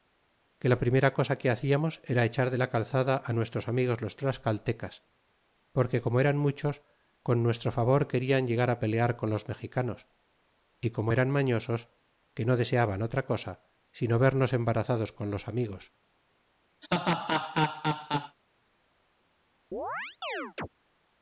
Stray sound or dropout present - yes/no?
yes